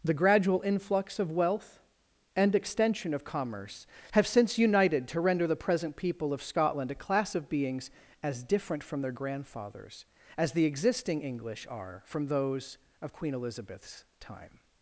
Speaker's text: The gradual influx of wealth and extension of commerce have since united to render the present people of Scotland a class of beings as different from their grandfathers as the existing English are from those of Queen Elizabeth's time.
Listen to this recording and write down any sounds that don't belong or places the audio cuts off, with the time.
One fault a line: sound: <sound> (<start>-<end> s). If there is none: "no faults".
no faults